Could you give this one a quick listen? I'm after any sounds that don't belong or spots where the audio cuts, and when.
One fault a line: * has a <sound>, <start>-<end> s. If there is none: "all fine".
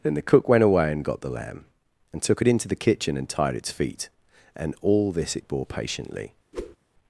* has a whoosh, 6.5-6.8 s